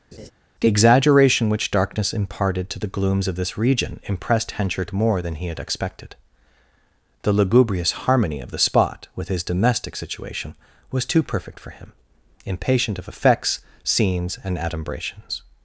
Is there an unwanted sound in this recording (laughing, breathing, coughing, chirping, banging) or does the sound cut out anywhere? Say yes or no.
yes